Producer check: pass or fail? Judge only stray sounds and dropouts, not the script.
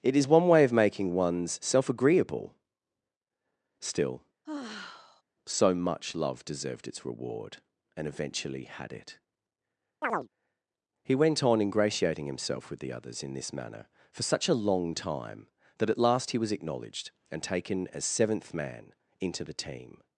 fail